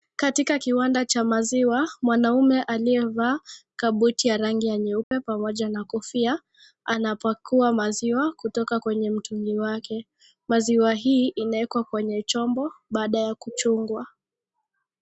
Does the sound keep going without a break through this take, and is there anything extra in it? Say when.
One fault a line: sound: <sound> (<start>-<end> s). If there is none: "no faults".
sound: dropout (5.0-5.1 s)